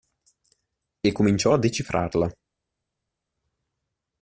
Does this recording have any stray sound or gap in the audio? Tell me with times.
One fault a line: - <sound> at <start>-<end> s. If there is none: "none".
none